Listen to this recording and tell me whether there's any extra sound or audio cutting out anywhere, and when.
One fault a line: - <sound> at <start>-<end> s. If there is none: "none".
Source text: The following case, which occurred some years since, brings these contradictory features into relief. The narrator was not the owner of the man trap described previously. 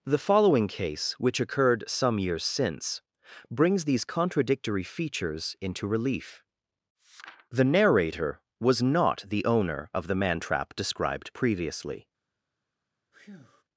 - breath at 13.1-13.6 s